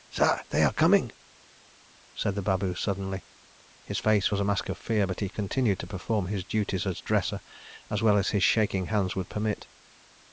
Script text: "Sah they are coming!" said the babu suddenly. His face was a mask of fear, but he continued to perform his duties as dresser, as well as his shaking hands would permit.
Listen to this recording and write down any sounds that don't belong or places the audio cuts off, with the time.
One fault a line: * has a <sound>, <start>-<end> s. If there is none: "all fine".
all fine